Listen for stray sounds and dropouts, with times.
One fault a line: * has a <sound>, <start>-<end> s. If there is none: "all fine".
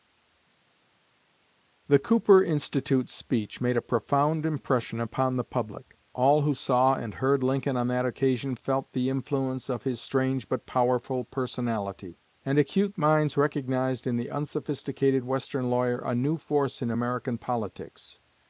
all fine